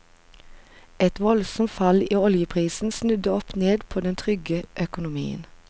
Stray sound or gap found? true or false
false